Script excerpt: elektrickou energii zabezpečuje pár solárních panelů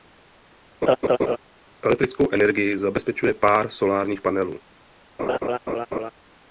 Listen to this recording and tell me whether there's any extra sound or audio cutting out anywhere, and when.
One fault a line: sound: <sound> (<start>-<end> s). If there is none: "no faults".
sound: laugh (0.8-1.4 s)
sound: laugh (5.2-6.1 s)